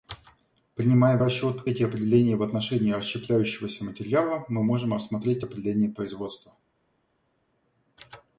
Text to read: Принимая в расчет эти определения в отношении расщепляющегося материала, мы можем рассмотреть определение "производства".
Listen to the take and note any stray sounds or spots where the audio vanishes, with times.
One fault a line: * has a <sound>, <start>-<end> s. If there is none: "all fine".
all fine